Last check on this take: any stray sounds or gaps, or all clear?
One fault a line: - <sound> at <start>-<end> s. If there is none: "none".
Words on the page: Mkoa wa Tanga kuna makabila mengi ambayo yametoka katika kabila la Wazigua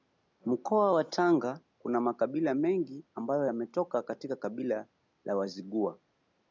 none